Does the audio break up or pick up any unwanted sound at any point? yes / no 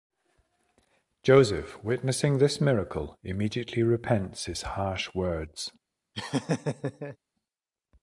yes